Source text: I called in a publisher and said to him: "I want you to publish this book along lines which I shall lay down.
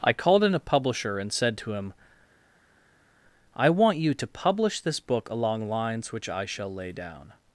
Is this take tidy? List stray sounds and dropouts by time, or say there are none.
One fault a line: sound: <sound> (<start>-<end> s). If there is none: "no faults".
no faults